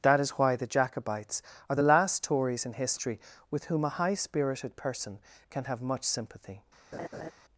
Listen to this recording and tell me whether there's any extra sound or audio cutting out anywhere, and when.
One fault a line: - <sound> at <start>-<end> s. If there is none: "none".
- laugh at 6.9-7.3 s